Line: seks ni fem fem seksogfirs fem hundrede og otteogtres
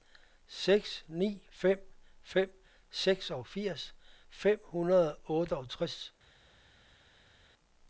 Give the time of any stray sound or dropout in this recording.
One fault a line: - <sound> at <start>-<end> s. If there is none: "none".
none